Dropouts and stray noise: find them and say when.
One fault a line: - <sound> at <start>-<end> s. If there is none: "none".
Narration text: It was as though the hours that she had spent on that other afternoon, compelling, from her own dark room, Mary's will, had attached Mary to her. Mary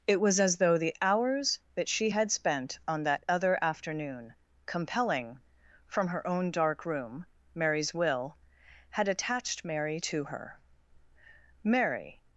none